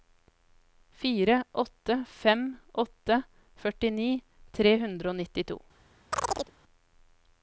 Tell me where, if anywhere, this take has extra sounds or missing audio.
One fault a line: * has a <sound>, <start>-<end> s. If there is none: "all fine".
* has a chirp, 6.1-6.5 s